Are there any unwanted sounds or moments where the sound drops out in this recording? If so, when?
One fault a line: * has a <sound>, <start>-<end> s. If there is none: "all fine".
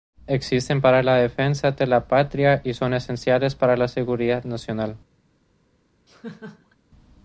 * has a laugh, 6.1-6.8 s